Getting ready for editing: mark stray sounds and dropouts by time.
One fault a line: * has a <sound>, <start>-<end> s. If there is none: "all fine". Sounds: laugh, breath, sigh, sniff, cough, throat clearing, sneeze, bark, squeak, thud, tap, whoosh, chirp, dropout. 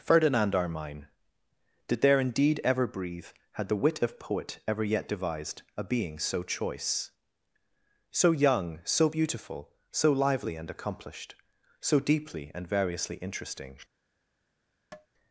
* has a tap, 14.9-15.1 s